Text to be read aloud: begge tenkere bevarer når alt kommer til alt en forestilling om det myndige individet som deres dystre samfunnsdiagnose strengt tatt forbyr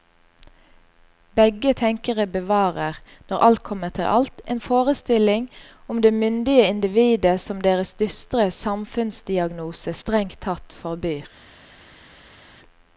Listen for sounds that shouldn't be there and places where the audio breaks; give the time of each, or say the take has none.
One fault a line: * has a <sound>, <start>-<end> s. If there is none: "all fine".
all fine